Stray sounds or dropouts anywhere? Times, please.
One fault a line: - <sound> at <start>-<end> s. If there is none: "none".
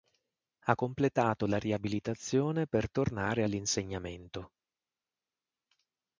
none